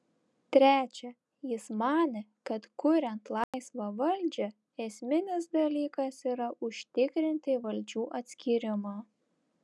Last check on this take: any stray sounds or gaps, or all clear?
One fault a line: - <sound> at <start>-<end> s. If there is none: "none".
- dropout at 3.4-3.5 s